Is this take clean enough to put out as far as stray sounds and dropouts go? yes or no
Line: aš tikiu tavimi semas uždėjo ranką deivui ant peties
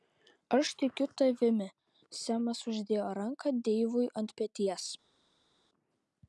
yes